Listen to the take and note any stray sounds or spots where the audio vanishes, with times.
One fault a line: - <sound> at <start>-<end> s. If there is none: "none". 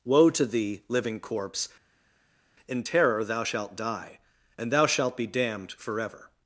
none